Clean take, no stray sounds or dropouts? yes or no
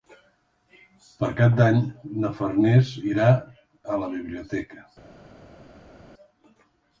yes